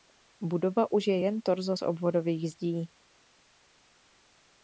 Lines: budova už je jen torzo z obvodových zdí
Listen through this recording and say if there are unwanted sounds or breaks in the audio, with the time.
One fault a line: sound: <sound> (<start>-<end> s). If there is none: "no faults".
no faults